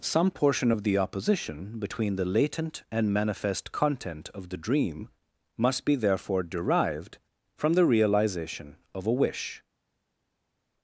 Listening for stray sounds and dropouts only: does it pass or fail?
pass